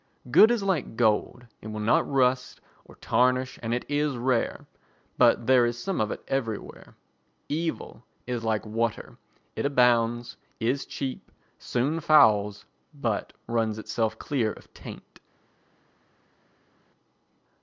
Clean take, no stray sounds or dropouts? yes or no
yes